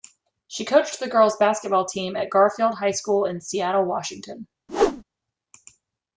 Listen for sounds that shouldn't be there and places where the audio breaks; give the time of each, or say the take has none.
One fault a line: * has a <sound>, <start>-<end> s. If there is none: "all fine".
* has a whoosh, 4.7-5.0 s